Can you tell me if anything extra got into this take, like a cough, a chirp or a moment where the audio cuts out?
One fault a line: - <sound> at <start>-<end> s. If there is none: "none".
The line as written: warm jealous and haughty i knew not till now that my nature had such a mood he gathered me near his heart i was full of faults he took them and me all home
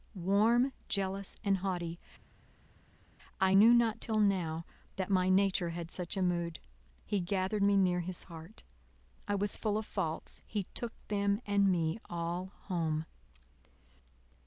none